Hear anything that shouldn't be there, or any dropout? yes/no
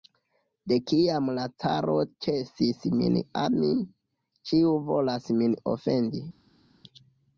no